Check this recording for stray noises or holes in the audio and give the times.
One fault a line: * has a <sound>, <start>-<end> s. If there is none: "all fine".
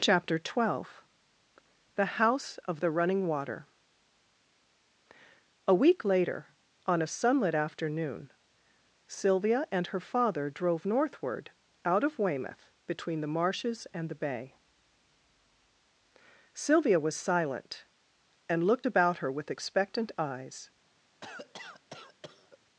* has a cough, 21.2-22.6 s